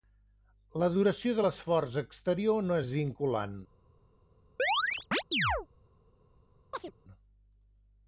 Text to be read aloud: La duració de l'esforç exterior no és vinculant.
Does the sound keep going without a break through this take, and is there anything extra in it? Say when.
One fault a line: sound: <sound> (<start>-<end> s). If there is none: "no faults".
sound: chirp (4.6-5.7 s)
sound: chirp (6.7-6.9 s)